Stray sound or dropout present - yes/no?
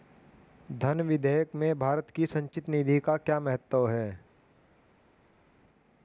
no